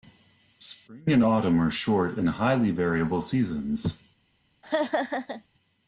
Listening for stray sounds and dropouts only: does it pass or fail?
fail